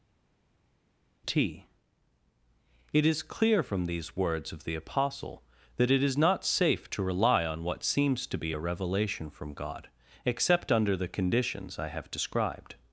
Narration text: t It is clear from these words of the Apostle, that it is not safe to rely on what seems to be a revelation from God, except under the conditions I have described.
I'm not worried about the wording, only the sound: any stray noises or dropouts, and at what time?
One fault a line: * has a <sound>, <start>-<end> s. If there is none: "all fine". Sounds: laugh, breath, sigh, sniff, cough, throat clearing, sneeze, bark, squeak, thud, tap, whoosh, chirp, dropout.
all fine